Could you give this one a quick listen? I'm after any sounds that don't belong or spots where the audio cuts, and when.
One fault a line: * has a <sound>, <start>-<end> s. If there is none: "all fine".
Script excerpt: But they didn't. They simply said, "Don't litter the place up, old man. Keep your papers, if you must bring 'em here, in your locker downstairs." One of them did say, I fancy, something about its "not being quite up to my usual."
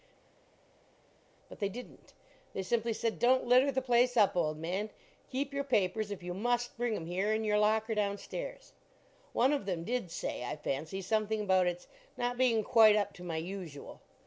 all fine